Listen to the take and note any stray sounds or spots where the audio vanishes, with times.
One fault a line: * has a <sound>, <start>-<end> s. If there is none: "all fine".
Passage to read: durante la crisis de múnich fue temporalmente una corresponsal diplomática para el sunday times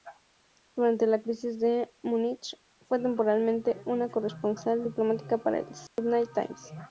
* has a dropout, 5.9-6.0 s